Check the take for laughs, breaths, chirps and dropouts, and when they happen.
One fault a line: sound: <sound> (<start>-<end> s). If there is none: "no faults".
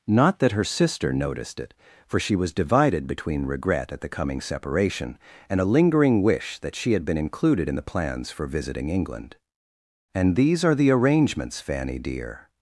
no faults